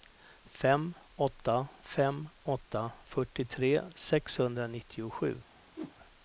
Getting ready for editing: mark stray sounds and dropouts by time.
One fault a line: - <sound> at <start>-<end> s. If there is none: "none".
- whoosh at 5.8-5.9 s